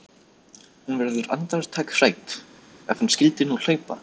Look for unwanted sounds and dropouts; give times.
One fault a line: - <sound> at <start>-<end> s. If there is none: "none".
none